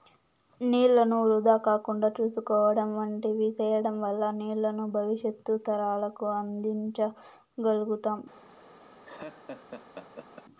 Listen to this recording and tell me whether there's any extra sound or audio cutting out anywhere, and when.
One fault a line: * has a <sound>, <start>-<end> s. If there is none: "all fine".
* has a laugh, 9.0-10.4 s